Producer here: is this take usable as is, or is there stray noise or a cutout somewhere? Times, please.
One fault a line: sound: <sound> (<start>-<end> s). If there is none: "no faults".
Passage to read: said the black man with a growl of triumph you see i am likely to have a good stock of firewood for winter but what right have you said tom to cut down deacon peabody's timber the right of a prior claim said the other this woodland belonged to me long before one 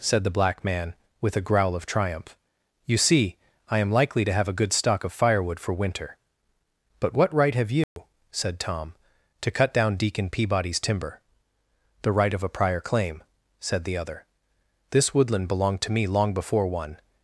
sound: dropout (7.8-8.0 s)